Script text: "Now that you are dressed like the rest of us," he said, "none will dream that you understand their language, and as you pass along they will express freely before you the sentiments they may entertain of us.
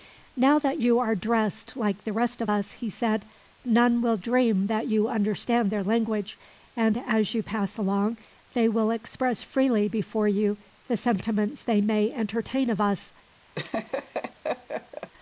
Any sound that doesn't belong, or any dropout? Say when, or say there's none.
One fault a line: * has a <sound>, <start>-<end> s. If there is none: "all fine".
* has a laugh, 13.6-15.1 s